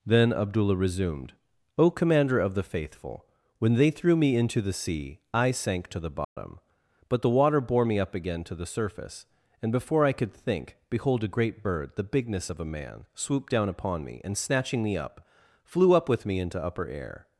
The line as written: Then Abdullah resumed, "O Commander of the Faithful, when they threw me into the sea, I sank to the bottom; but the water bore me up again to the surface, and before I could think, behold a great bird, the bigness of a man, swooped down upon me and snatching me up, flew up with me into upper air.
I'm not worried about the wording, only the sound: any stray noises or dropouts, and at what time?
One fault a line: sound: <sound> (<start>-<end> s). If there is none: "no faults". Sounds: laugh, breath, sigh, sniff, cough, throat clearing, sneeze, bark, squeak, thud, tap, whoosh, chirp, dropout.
sound: dropout (6.2-6.4 s)